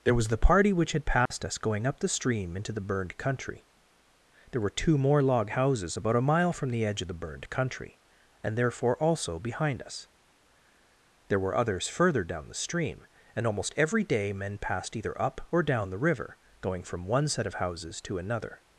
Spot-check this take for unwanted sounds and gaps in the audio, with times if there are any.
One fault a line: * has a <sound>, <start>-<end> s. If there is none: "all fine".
* has a dropout, 1.3-1.3 s